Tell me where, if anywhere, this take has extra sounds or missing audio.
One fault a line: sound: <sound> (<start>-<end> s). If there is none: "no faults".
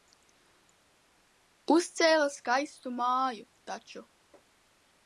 no faults